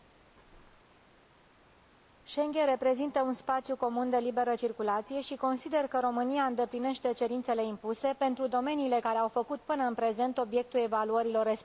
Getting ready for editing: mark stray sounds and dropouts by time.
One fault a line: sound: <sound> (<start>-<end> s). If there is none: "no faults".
no faults